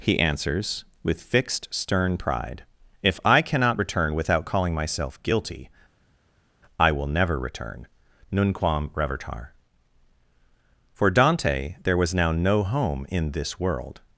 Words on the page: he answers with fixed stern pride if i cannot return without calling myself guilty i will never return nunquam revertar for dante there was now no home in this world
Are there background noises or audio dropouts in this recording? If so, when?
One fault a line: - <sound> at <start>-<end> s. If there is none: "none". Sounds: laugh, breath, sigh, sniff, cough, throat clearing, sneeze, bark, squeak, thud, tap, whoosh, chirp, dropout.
none